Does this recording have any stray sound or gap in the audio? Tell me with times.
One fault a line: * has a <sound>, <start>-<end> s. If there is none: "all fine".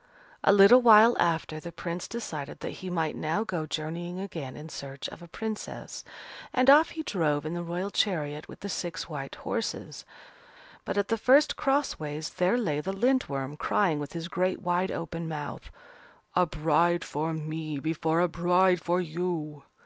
all fine